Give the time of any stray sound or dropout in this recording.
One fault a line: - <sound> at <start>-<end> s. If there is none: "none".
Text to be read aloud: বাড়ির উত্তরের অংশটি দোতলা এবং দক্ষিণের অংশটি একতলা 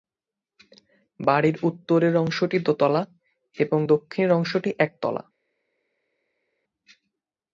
none